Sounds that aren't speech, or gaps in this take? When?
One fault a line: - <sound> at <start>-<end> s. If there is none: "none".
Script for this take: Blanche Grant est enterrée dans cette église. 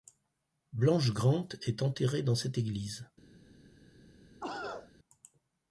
- cough at 4.4-4.9 s